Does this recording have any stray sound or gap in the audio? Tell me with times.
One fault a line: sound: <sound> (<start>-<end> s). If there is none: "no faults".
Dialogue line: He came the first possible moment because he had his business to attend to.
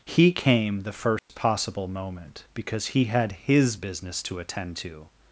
sound: dropout (1.2-1.3 s)